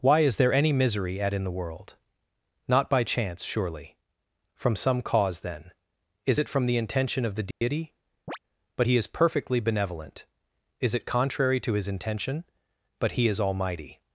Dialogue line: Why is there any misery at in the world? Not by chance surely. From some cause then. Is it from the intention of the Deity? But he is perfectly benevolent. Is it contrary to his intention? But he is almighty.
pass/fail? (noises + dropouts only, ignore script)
fail